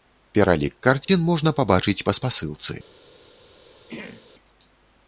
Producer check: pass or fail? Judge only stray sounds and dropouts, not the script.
fail